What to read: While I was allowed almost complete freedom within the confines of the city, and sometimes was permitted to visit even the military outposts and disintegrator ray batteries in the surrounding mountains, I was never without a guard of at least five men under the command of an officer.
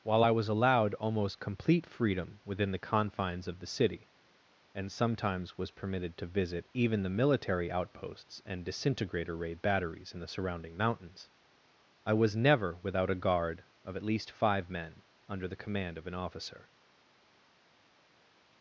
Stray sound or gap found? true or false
false